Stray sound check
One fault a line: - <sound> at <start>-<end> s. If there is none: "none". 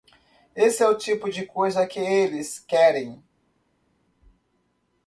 none